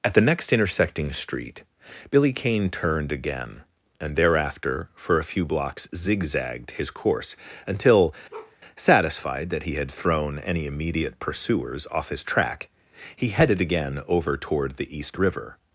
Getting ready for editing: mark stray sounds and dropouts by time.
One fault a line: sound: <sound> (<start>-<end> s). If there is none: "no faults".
sound: bark (8.3-8.6 s)